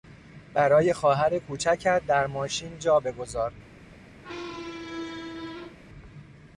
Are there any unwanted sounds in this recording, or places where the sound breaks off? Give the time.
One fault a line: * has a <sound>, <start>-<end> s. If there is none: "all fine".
* has a squeak, 4.2-5.8 s